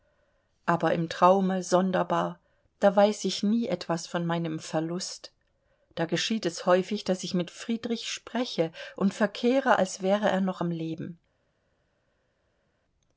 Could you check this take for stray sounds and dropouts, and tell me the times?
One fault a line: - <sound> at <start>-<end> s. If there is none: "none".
none